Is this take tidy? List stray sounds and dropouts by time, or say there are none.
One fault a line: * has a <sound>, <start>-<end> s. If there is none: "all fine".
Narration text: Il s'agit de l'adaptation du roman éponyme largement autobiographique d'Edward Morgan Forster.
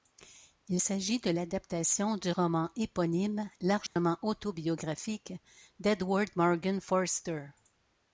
* has a dropout, 3.9-4.0 s